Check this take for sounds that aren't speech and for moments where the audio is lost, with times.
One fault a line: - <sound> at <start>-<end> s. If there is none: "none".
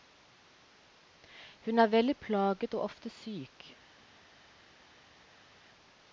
none